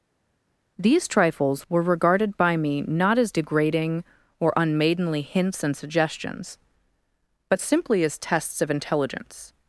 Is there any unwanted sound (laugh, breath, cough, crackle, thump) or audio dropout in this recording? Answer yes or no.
no